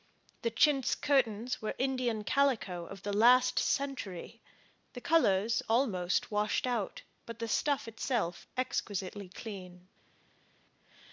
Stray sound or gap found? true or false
false